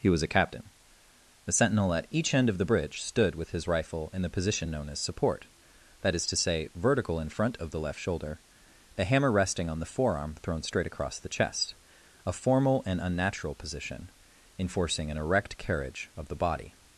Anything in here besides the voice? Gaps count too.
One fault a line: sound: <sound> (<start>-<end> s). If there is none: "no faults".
no faults